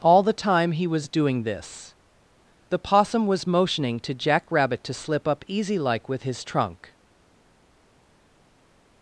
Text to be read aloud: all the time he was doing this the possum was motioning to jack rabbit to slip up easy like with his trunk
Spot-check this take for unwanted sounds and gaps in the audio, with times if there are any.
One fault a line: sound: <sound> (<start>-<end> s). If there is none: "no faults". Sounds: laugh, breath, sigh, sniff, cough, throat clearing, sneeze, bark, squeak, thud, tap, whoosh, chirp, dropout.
no faults